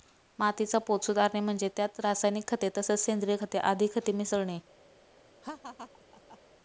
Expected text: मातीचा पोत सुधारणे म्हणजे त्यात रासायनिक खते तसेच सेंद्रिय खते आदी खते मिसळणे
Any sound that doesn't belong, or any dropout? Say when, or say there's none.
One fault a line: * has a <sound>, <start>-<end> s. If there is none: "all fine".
* has a laugh, 5.4-6.4 s